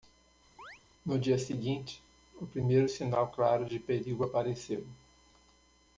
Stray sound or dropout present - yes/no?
yes